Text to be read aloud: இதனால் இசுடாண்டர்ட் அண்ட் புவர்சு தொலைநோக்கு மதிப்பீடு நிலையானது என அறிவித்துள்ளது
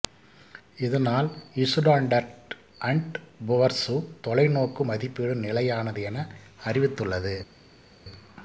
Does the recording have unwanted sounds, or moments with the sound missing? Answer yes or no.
no